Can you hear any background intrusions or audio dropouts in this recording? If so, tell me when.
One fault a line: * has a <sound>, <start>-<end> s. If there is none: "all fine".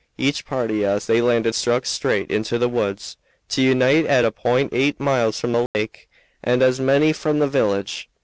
* has a dropout, 5.7-5.7 s